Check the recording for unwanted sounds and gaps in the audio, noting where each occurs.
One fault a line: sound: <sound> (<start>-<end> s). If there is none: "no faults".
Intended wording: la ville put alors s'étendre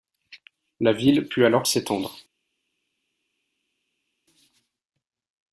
no faults